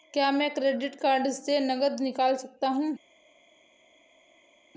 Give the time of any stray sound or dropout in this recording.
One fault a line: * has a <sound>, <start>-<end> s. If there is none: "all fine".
all fine